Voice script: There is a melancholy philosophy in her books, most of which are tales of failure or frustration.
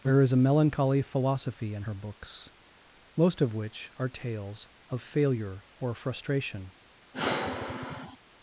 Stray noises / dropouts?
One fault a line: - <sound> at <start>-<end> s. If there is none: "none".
- sigh at 7.1-8.2 s